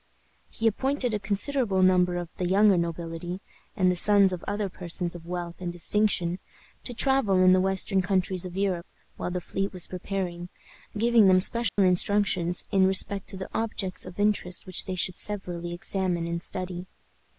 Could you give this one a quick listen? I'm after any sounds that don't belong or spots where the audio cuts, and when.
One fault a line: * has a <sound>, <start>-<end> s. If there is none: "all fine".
* has a dropout, 11.7-11.8 s